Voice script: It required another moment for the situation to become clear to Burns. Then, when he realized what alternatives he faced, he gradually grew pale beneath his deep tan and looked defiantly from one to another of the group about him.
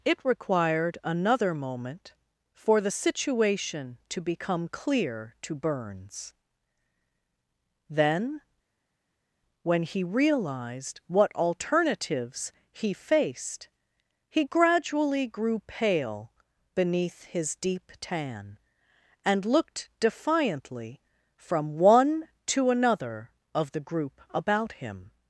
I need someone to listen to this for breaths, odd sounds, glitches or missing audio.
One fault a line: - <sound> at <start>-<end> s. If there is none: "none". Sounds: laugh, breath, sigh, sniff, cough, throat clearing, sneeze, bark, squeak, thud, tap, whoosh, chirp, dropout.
none